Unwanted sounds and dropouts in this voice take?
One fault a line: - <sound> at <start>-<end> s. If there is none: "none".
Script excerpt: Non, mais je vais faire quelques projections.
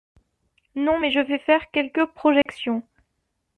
- dropout at 2.4-2.5 s